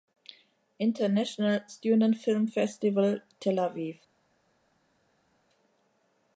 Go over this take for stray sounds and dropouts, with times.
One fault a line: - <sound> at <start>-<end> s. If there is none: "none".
none